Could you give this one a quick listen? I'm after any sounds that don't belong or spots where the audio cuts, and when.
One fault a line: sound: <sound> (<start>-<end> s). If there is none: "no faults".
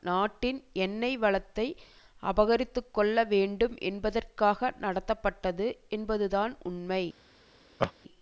sound: laugh (7.8-7.9 s)